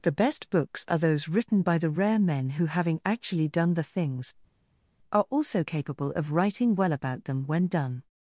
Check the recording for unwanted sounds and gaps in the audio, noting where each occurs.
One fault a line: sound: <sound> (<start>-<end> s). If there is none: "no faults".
no faults